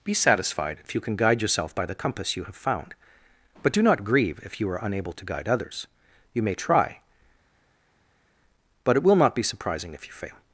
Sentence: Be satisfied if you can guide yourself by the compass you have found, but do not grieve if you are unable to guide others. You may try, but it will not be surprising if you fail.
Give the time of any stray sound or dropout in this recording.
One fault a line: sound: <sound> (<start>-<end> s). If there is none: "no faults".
no faults